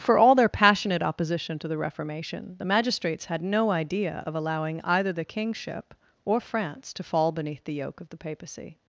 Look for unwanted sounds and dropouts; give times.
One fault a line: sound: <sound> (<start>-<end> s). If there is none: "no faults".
no faults